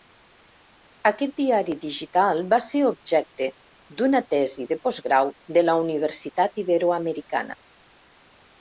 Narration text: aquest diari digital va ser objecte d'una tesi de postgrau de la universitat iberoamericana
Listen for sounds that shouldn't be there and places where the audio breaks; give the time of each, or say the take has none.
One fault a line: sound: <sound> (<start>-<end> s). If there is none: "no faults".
no faults